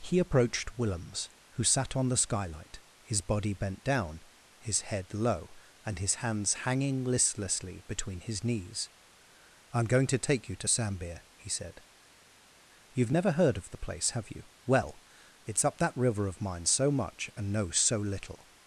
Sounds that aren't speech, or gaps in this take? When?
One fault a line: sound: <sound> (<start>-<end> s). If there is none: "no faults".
no faults